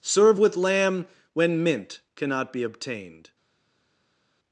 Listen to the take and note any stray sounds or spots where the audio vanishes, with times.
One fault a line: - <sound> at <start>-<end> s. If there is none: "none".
none